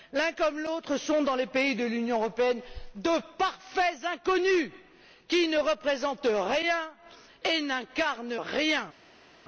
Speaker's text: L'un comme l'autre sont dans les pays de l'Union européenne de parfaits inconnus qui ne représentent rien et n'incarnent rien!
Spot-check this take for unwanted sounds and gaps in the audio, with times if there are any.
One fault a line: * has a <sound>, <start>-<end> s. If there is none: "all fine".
all fine